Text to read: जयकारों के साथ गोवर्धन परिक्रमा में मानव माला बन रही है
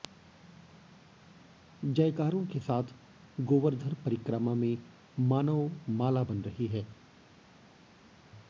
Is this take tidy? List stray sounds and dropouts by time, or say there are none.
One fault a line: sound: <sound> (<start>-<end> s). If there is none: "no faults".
no faults